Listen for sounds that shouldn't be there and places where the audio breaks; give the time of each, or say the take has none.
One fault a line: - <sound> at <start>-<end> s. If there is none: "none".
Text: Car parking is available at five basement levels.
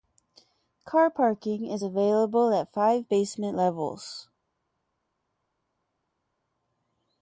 none